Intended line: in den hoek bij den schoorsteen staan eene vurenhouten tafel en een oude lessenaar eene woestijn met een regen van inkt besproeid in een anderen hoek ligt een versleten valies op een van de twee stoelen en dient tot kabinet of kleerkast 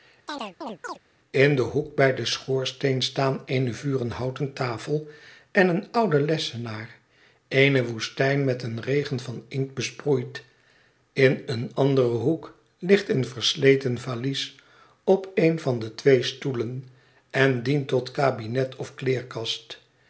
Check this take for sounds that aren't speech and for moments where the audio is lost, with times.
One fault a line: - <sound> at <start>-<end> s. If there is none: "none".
- chirp at 0.3-1.0 s